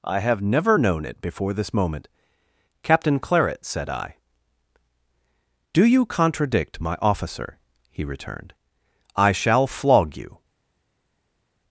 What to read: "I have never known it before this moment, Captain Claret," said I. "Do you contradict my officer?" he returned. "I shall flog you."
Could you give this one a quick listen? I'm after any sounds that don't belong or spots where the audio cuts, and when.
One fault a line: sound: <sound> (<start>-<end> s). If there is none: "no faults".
no faults